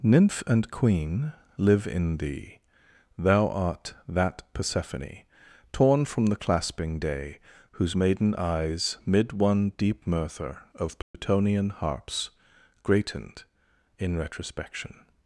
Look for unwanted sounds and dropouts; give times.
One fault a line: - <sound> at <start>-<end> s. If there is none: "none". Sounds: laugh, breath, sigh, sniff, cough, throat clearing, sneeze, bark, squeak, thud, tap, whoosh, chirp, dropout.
- dropout at 11.0-11.1 s